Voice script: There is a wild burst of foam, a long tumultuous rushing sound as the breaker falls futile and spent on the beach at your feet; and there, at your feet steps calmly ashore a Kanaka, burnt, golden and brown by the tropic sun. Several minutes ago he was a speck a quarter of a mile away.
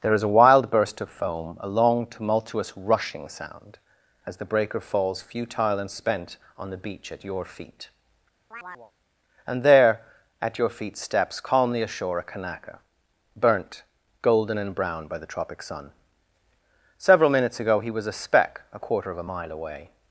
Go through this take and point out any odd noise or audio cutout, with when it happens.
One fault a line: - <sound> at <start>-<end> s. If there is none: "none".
- chirp at 8.5-8.9 s